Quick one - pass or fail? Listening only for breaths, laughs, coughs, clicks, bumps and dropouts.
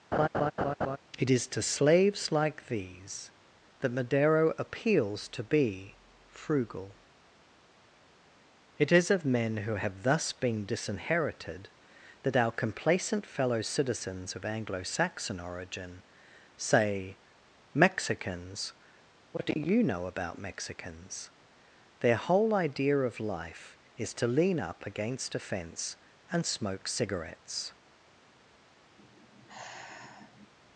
fail